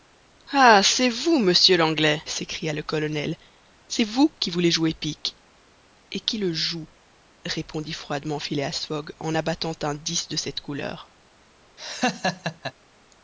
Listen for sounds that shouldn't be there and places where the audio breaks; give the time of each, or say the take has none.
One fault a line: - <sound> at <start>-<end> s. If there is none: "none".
- laugh at 11.8-12.7 s